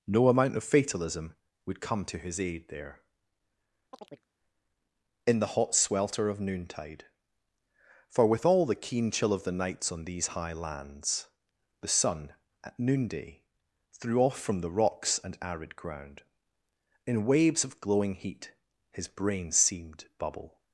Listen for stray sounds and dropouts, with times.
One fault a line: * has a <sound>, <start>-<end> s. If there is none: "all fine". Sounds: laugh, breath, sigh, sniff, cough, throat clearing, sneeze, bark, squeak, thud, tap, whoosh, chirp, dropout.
* has a chirp, 3.9-4.3 s